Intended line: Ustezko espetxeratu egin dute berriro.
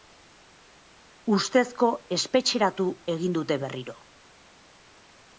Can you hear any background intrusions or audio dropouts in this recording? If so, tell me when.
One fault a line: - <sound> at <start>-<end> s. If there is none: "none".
none